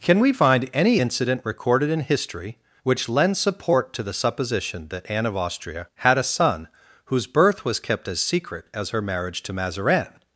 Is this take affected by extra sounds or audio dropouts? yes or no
no